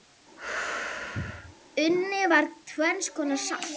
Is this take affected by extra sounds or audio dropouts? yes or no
yes